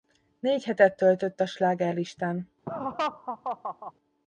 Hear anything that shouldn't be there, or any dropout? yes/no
yes